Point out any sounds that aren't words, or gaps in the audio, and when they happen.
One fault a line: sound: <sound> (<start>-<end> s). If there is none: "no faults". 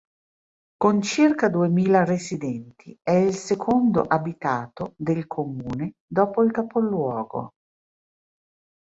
no faults